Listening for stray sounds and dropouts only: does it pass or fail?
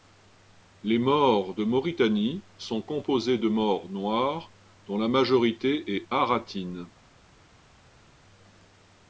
pass